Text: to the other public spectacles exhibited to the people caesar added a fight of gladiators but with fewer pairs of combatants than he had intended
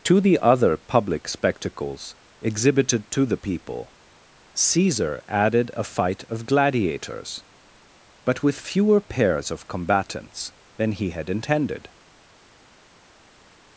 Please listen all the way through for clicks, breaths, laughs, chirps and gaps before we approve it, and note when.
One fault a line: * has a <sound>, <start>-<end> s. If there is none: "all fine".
all fine